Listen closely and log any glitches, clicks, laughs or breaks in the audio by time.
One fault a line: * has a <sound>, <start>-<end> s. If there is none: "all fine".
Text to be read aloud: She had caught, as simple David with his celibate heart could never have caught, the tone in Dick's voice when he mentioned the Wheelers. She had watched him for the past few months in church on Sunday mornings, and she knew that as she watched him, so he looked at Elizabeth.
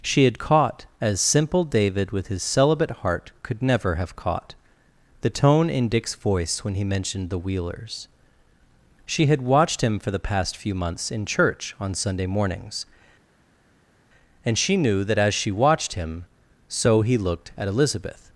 all fine